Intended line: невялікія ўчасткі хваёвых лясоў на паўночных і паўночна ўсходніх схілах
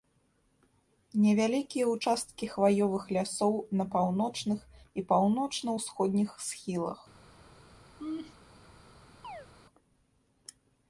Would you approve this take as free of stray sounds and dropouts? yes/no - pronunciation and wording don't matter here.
no